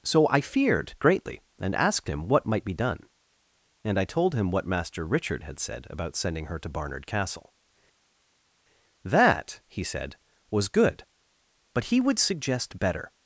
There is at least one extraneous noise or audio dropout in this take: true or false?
false